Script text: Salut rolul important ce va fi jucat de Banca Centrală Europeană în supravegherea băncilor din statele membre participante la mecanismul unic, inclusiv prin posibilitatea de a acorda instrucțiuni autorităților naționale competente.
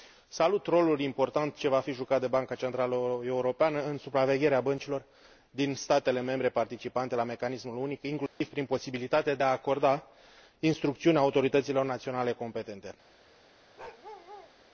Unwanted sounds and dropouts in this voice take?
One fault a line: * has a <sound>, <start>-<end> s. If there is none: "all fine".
* has a dropout, 8.3-8.4 s
* has a bark, 13.8-14.5 s